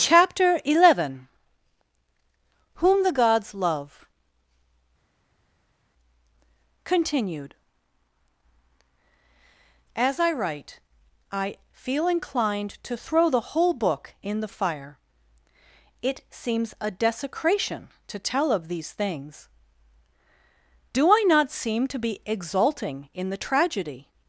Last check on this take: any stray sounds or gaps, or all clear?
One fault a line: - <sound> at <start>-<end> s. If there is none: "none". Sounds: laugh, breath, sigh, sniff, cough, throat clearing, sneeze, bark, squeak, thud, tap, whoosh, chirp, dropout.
none